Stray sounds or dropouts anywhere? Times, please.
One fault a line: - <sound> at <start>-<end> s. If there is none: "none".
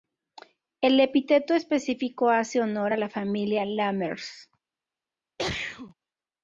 - sneeze at 5.4-5.9 s